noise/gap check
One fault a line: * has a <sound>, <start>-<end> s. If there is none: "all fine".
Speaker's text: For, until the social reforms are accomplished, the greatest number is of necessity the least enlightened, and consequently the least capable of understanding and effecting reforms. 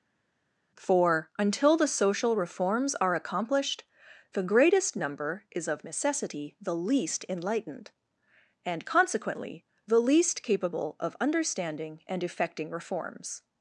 all fine